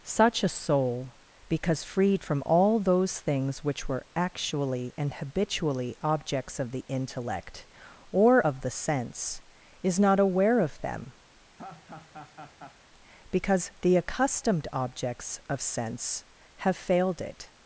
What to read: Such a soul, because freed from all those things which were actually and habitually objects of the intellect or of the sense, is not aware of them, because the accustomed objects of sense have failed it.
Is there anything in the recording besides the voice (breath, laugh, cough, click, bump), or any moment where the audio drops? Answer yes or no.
yes